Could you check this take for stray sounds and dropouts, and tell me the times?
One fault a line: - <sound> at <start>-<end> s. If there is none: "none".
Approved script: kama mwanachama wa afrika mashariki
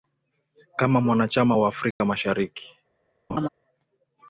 - dropout at 1.9-2.0 s
- laugh at 3.3-3.5 s